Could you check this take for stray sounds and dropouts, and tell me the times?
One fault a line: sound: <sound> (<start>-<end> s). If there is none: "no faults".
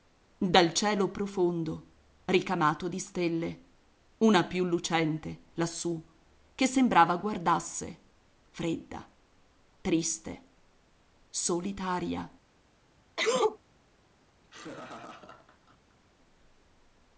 sound: sneeze (13.2-13.6 s)
sound: laugh (14.4-16.0 s)